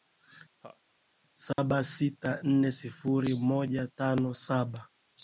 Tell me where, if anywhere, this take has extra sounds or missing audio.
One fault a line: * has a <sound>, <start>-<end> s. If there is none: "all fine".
* has a laugh, 0.6-0.8 s
* has a dropout, 1.5-1.6 s